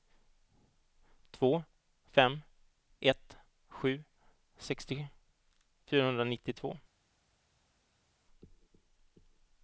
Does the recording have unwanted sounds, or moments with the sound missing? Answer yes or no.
no